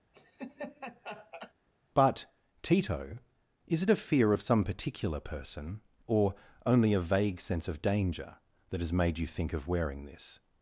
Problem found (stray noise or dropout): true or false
true